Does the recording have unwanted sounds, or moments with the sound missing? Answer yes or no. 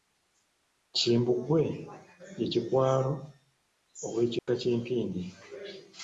yes